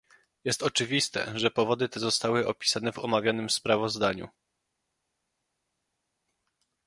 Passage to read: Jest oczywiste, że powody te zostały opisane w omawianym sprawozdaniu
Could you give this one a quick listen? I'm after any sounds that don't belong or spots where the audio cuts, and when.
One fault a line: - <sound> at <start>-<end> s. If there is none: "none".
none